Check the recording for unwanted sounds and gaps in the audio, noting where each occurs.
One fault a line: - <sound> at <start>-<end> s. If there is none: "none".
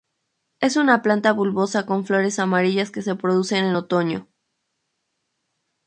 none